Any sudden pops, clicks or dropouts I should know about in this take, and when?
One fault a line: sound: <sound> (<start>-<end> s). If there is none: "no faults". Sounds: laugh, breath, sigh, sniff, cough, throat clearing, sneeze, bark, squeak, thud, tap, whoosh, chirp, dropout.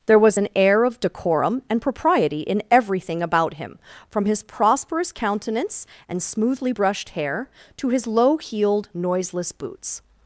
no faults